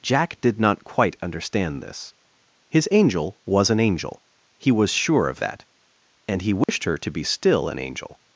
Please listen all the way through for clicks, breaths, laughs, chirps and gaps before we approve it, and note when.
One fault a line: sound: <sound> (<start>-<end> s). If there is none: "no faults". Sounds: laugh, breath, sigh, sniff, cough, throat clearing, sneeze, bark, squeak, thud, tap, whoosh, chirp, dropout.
sound: dropout (6.6-6.7 s)